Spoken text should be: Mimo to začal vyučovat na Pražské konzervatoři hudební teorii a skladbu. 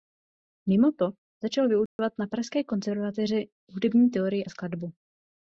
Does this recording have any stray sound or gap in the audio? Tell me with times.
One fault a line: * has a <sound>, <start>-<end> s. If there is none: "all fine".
* has a dropout, 1.9-2.0 s